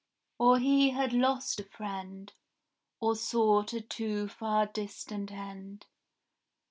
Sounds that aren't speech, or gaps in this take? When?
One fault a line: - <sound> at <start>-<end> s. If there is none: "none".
none